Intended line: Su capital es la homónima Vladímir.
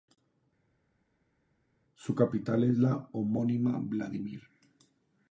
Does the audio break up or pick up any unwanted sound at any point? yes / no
no